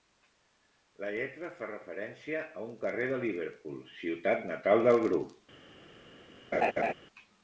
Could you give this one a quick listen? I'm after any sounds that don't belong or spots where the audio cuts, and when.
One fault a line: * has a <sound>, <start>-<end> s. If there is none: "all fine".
* has a laugh, 6.5-6.9 s